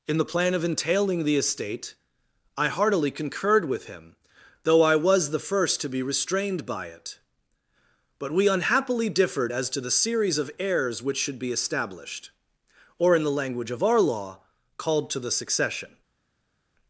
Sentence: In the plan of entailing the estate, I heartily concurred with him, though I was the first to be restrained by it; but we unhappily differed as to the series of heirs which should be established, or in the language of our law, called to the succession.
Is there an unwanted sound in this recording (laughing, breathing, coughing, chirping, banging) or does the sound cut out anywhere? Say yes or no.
no